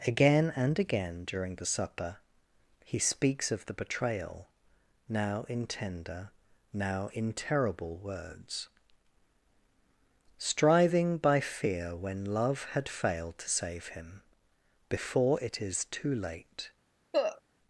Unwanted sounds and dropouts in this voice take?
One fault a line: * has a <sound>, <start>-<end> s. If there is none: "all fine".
* has a cough, 17.1-17.4 s